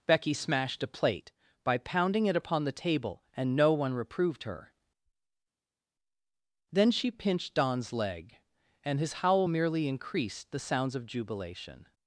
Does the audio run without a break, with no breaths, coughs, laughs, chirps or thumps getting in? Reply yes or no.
yes